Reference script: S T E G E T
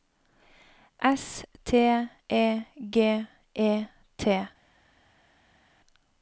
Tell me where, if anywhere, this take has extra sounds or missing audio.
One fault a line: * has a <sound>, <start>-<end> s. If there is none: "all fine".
all fine